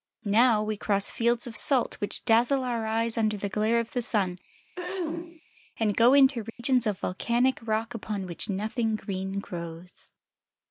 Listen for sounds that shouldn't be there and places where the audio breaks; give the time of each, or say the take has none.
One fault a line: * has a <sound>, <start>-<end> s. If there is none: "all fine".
* has a throat clearing, 4.8-5.4 s
* has a dropout, 6.5-6.6 s